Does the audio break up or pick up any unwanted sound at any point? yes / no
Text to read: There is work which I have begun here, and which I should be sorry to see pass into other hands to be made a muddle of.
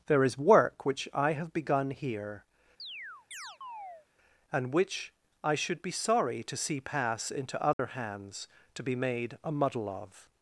yes